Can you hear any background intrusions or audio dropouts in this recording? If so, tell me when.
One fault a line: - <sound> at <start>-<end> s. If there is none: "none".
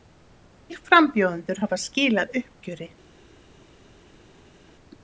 none